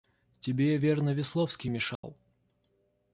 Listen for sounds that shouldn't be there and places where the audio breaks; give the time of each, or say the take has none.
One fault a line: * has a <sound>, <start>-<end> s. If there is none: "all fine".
* has a dropout, 1.9-2.0 s